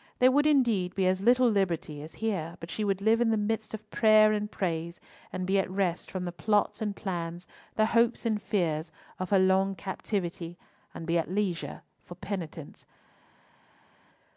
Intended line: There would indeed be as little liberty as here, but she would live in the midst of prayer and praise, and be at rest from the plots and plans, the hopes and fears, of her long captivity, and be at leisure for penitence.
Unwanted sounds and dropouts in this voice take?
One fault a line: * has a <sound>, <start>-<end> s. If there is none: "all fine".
all fine